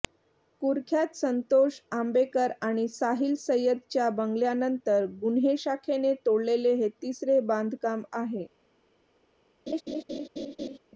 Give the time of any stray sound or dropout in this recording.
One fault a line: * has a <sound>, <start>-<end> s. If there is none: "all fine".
* has a laugh, 9.7-10.8 s